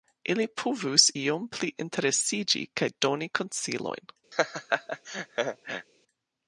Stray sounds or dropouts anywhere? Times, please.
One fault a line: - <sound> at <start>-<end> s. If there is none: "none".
- laugh at 4.3-5.9 s